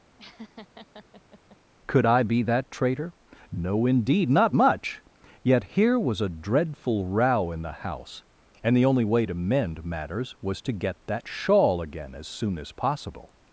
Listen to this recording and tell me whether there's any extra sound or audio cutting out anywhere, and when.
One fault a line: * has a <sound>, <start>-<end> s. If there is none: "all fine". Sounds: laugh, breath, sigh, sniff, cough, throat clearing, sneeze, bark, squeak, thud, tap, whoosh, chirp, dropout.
* has a laugh, 0.2-1.6 s